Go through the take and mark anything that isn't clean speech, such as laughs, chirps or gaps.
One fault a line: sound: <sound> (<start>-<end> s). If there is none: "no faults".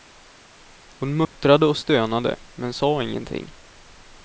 sound: dropout (1.2-1.4 s)